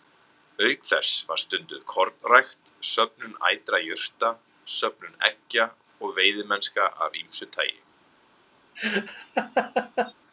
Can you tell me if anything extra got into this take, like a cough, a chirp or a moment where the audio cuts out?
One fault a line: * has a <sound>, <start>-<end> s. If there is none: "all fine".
* has a laugh, 8.8-10.1 s